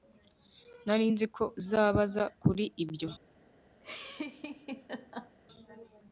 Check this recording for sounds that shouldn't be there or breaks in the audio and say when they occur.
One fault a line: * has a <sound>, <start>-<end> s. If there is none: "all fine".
* has a laugh, 3.8-5.4 s